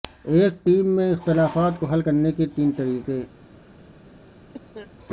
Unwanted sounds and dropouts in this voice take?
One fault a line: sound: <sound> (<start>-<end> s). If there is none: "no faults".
sound: cough (4.5-4.9 s)